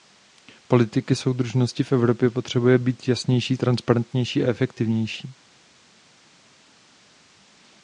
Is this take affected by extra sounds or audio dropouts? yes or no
no